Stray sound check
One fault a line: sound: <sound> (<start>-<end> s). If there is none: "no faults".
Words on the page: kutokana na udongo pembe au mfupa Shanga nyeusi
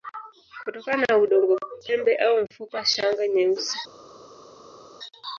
no faults